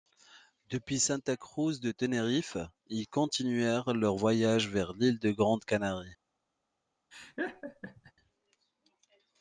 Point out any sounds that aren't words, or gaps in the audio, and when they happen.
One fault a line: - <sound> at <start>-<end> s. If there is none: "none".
- laugh at 7.1-8.1 s